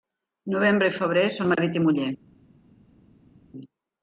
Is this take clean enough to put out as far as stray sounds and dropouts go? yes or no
yes